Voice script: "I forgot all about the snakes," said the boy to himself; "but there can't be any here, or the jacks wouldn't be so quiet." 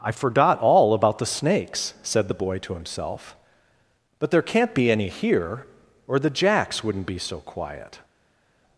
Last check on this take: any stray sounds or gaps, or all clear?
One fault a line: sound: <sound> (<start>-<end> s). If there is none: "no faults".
no faults